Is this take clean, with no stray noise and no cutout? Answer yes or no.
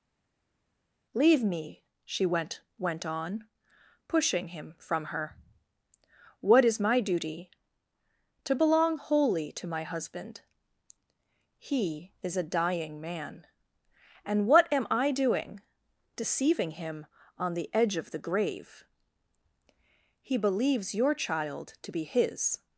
yes